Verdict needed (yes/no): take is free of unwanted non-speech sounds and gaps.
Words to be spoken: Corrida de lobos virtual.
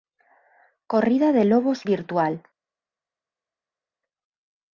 yes